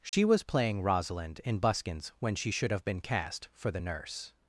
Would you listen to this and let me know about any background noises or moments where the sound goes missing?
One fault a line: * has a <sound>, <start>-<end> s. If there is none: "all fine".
* has a dropout, 0.1-0.1 s